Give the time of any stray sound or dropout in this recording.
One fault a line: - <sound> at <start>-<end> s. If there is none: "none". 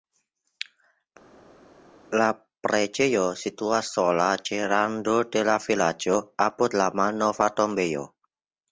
none